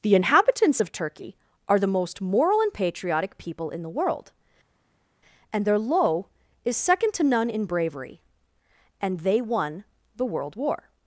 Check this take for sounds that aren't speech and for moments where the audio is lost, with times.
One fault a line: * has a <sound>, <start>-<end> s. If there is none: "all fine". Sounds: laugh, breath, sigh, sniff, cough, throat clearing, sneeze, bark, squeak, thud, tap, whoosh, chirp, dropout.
all fine